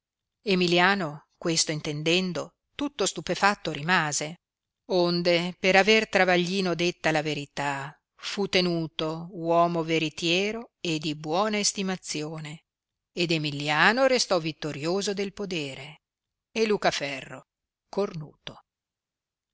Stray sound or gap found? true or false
false